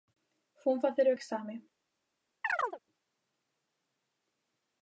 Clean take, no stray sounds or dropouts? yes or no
no